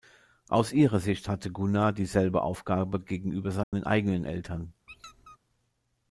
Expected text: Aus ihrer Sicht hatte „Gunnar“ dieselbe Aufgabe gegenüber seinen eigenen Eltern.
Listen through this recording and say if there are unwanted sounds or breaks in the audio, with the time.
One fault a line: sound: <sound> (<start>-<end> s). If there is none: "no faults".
sound: dropout (3.6-3.7 s)
sound: squeak (4.9-5.4 s)